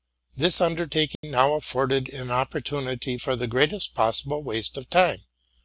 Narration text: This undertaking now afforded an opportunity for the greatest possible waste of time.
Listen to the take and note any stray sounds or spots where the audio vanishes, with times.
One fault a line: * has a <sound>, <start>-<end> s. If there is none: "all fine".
* has a dropout, 1.2-1.2 s